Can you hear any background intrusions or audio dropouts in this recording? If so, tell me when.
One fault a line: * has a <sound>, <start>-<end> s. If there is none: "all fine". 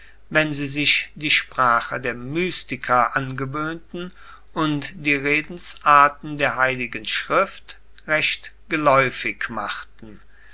all fine